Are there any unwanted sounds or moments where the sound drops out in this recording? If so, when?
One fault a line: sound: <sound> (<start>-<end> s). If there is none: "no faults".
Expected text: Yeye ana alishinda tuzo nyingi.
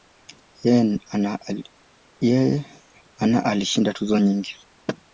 no faults